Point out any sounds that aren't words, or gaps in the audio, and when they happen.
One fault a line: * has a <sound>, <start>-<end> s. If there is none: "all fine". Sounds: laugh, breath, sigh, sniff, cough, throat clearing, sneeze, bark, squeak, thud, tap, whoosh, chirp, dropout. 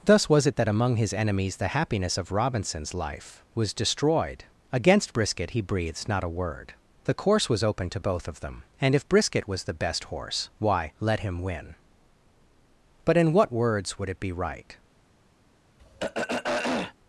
* has a throat clearing, 15.8-16.9 s